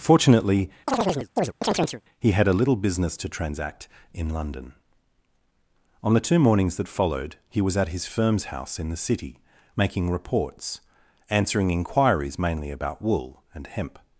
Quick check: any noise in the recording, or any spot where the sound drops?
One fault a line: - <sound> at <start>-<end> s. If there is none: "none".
- chirp at 0.9-2.0 s